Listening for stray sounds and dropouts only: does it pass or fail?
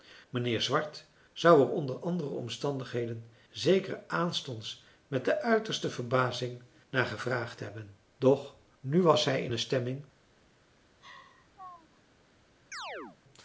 fail